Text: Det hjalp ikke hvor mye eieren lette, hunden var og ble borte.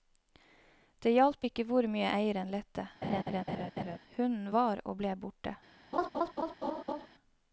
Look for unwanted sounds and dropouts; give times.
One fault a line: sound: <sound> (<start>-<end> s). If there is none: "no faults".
sound: laugh (3.0-4.0 s)
sound: laugh (5.9-7.1 s)